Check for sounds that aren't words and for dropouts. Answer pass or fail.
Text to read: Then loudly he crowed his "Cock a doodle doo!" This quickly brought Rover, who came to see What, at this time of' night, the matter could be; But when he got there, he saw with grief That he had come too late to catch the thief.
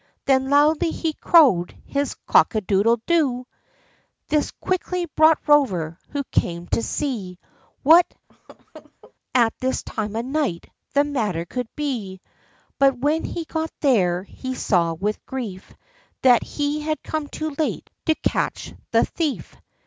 fail